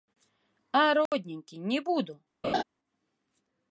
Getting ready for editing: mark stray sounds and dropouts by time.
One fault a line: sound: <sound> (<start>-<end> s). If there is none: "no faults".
sound: dropout (1.1-1.1 s)
sound: laugh (2.4-2.6 s)